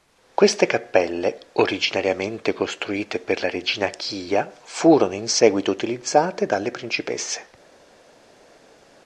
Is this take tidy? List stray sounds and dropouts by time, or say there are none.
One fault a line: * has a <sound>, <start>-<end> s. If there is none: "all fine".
all fine